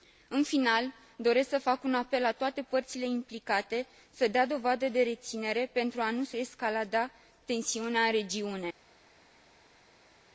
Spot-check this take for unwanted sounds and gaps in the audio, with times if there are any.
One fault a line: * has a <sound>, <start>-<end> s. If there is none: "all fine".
all fine